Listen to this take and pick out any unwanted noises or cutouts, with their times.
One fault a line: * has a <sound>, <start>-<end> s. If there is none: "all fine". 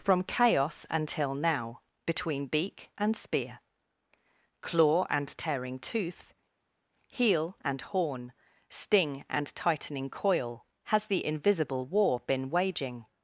all fine